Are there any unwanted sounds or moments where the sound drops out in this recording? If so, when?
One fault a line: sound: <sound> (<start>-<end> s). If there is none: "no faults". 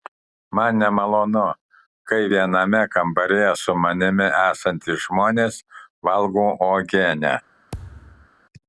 sound: thud (7.7-8.3 s)